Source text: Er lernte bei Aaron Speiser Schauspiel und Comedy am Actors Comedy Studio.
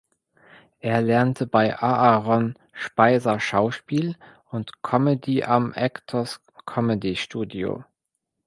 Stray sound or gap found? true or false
false